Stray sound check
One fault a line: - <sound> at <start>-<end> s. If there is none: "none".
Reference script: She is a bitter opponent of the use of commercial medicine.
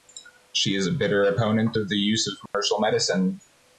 - dropout at 2.5-2.5 s